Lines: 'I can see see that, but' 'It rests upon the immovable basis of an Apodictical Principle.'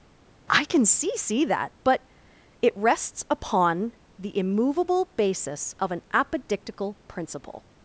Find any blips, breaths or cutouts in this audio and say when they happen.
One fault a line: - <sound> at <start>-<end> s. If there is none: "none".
none